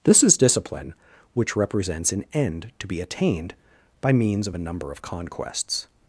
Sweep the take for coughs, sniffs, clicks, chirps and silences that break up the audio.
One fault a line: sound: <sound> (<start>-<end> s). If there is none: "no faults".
no faults